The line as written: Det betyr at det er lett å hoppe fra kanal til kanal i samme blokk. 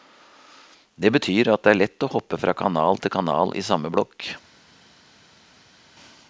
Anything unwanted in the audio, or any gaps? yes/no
no